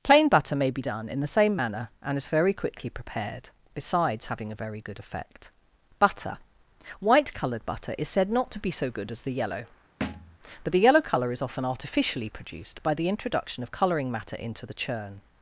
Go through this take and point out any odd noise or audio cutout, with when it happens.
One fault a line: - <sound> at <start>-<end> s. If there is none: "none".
- thud at 10.0-10.4 s